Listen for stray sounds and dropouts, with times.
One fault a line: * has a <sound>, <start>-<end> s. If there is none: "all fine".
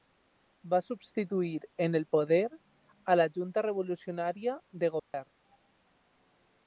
* has a dropout, 5.0-5.1 s